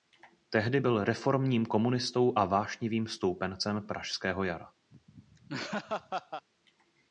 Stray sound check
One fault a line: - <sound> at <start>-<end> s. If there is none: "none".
- laugh at 4.9-6.5 s